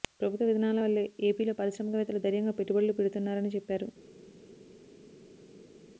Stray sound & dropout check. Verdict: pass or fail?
pass